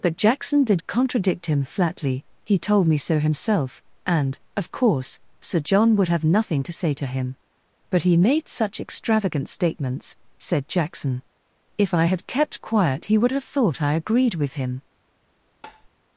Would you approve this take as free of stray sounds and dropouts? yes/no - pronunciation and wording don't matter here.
no